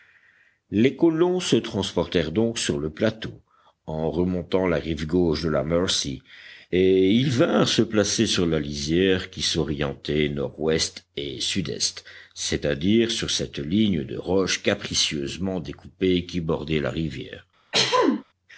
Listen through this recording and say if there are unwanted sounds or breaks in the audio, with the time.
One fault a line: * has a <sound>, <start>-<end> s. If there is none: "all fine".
* has a throat clearing, 17.7-18.2 s